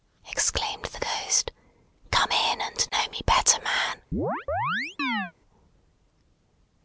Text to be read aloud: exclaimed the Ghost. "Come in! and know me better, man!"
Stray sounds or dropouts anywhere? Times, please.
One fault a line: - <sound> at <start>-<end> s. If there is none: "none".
- chirp at 4.1-5.3 s